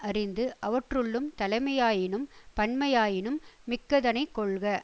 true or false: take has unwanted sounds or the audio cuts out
false